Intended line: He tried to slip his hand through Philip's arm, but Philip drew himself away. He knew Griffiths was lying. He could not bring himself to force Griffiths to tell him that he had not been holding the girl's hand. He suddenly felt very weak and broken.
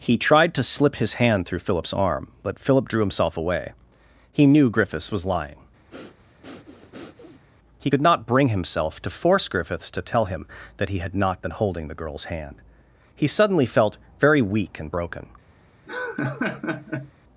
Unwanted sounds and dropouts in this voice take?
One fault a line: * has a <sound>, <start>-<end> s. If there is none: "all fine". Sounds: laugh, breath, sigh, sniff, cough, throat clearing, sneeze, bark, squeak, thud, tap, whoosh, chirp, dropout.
* has a breath, 5.9-7.4 s
* has a laugh, 15.9-17.1 s